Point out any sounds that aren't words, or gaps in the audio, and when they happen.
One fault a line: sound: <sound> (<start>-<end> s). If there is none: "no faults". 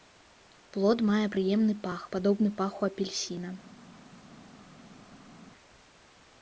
no faults